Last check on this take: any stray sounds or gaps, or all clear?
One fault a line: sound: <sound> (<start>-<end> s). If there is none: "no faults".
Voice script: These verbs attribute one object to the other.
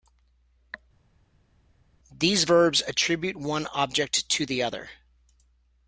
no faults